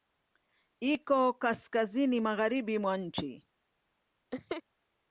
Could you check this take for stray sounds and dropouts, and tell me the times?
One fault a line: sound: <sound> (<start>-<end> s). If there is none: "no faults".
sound: laugh (4.3-4.6 s)